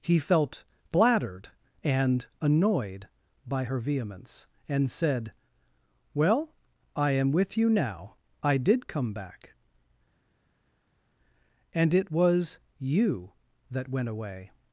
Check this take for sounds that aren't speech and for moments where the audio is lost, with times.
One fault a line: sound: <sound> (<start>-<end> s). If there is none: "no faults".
no faults